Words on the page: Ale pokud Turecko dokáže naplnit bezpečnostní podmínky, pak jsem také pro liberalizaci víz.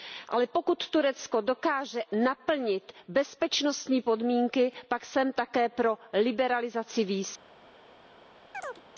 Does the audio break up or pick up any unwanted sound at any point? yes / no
yes